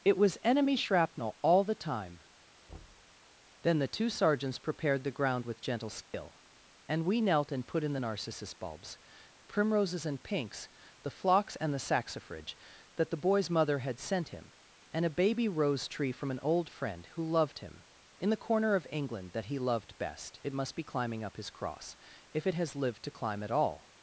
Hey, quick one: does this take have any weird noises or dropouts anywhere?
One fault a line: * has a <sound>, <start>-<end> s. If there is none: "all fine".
* has a thud, 2.7-3.1 s
* has a dropout, 6.0-6.1 s